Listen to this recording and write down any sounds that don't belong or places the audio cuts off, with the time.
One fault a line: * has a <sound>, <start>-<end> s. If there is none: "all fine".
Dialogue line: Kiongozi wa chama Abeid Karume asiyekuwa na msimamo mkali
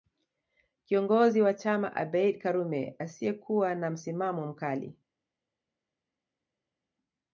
all fine